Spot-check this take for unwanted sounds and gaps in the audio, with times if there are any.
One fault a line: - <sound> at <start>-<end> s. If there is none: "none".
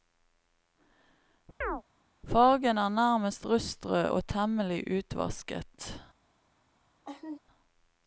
- chirp at 1.6-1.8 s
- laugh at 7.0-7.4 s